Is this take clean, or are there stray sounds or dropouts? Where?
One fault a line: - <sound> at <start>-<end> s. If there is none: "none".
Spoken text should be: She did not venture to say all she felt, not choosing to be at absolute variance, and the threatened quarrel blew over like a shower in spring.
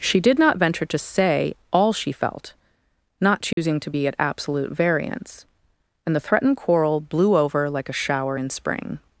- dropout at 3.5-3.6 s